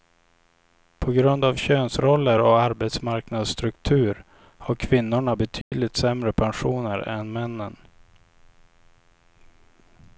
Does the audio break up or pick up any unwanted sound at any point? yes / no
yes